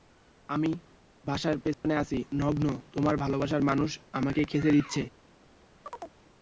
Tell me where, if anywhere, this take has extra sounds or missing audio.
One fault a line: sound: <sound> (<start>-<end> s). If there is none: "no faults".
sound: dropout (1.7-1.8 s)
sound: chirp (5.9-6.2 s)